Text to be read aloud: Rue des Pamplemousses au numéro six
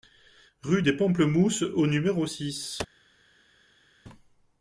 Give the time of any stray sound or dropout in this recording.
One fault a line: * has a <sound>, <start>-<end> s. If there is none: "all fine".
all fine